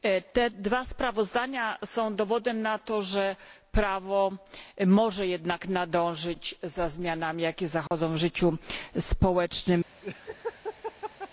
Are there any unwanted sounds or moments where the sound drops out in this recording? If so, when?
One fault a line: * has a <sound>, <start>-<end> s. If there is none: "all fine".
* has a dropout, 7.9-7.9 s
* has a laugh, 10.0-11.3 s